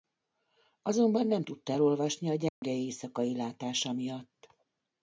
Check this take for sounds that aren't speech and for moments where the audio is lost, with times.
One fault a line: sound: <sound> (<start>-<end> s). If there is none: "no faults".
sound: dropout (2.5-2.6 s)